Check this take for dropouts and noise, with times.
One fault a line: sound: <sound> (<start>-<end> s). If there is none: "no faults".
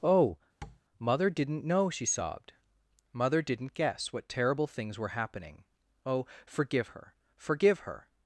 sound: tap (0.6-0.8 s)